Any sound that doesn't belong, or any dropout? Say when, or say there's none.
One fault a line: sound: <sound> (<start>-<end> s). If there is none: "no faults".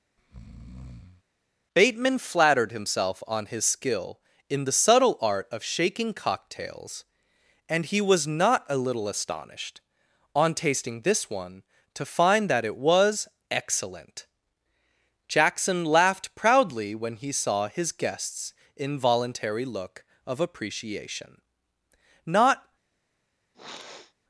sound: breath (0.2-1.2 s)
sound: sniff (23.5-24.1 s)